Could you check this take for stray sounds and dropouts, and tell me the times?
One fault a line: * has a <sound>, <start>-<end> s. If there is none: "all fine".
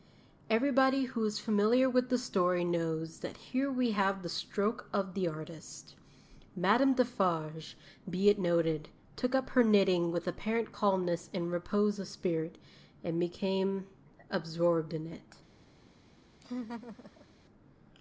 * has a laugh, 16.4-17.3 s